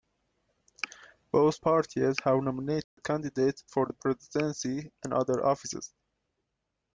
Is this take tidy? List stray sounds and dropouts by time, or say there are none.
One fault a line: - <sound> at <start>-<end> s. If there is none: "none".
- dropout at 2.8-3.0 s